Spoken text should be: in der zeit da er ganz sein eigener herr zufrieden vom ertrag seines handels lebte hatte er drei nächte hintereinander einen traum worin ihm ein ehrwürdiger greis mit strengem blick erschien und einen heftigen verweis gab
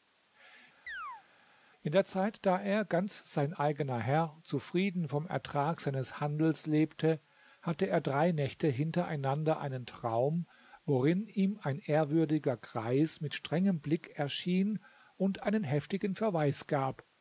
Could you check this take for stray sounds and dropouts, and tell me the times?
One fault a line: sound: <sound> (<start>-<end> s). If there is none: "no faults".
sound: chirp (0.9-1.2 s)